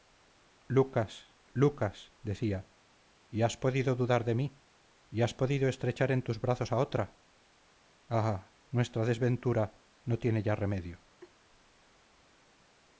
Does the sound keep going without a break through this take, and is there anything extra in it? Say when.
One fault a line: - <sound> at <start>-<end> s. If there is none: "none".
- laugh at 11.2-11.3 s